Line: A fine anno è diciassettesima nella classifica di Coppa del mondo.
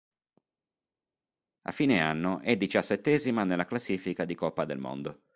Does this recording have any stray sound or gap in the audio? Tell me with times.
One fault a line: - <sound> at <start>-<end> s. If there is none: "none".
none